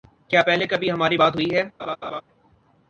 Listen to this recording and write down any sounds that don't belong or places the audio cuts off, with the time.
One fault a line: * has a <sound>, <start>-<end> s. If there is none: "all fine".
* has a laugh, 1.8-2.2 s